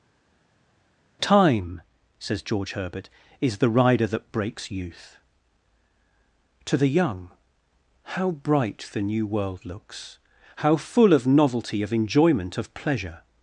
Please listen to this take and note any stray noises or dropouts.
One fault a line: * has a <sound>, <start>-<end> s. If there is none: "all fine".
all fine